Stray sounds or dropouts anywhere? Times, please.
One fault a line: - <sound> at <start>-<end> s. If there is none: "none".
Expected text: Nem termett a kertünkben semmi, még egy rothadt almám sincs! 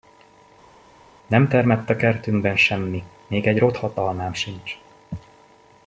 none